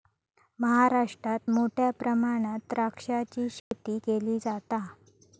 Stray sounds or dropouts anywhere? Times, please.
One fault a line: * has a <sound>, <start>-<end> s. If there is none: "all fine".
* has a dropout, 3.6-3.7 s